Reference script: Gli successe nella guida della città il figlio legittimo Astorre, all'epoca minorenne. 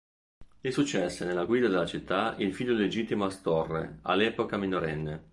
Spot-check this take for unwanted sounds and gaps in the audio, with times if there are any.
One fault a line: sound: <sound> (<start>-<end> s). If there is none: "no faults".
no faults